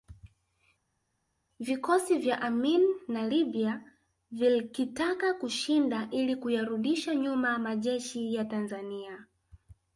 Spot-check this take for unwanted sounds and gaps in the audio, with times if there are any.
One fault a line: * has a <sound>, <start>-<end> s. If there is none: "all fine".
all fine